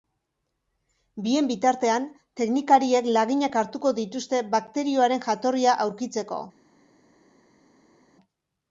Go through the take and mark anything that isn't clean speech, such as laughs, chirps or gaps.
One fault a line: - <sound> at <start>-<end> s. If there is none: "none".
none